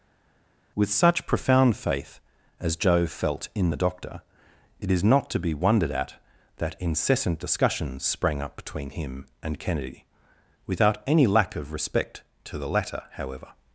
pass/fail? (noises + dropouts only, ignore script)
pass